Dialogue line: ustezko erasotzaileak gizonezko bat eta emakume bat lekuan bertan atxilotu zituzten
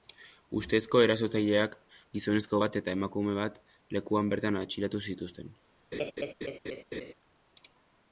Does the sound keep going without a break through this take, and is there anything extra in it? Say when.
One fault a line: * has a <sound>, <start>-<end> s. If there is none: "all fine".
* has a laugh, 5.9-7.1 s